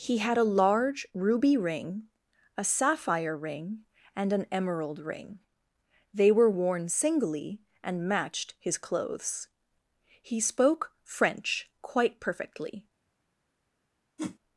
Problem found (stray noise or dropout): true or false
true